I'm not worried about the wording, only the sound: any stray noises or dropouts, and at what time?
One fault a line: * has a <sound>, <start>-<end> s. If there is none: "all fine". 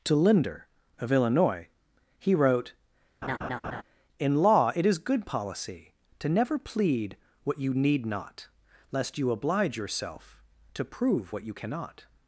* has a laugh, 3.2-3.8 s